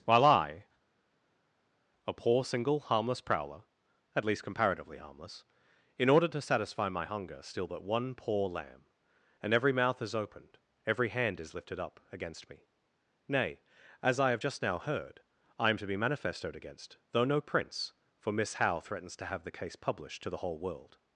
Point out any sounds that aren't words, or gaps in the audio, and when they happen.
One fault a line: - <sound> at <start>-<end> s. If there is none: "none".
none